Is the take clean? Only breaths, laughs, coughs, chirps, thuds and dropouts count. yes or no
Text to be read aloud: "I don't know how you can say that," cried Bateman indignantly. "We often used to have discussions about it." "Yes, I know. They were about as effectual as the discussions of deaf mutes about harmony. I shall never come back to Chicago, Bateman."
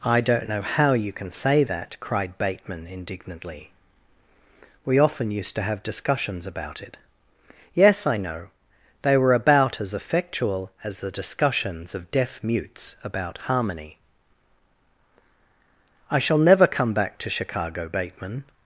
yes